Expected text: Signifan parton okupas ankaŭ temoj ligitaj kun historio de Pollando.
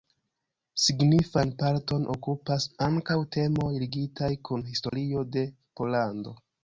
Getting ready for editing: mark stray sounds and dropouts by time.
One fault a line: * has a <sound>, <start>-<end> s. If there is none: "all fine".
* has a dropout, 4.9-4.9 s